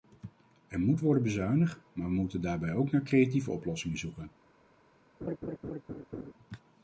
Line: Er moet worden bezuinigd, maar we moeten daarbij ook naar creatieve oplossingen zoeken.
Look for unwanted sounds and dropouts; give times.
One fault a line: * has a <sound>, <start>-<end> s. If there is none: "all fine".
* has a laugh, 5.2-6.3 s